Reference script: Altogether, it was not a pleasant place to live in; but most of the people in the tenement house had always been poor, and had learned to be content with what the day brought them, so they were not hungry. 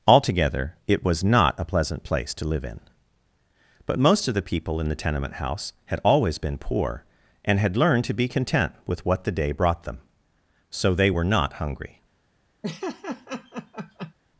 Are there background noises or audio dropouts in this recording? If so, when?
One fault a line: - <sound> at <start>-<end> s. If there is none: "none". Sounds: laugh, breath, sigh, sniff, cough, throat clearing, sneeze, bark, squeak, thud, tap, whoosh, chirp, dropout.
- laugh at 12.6-14.1 s